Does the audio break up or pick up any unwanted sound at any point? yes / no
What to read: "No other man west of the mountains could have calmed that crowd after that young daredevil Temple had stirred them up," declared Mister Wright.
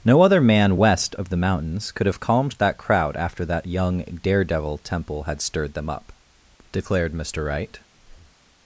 yes